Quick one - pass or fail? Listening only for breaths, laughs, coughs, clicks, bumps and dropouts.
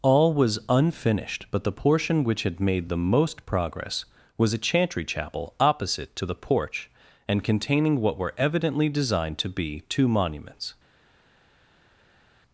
pass